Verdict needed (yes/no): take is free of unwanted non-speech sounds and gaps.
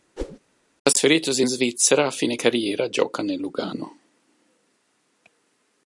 no